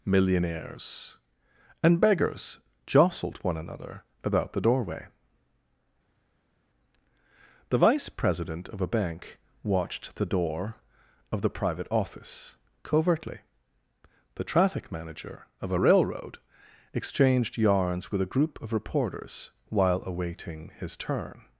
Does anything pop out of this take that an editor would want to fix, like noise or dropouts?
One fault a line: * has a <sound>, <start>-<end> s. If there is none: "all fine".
all fine